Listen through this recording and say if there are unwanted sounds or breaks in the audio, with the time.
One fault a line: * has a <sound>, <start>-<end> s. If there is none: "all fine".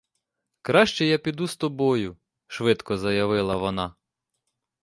all fine